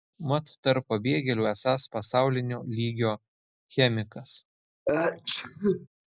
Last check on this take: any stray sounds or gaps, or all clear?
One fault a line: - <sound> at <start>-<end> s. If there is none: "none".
- sneeze at 4.9-5.9 s